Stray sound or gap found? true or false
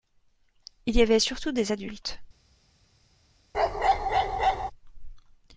true